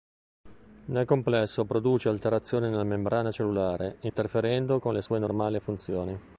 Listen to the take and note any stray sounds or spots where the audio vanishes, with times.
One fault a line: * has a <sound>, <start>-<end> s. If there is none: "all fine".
* has a dropout, 4.1-4.1 s